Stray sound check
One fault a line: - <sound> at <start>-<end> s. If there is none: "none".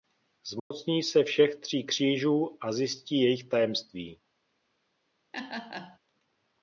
- dropout at 0.6-0.7 s
- laugh at 5.3-6.0 s